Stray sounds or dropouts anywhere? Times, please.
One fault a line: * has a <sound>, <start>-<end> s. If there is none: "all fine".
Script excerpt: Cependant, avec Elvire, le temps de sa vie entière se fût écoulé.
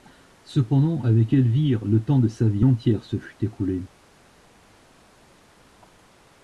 all fine